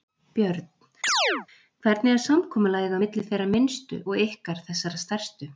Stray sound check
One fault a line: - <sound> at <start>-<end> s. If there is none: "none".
- chirp at 1.0-1.5 s